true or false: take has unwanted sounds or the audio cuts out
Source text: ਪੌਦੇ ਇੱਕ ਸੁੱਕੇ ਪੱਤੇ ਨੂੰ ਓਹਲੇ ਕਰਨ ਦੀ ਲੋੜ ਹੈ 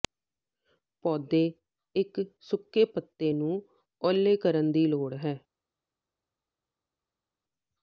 false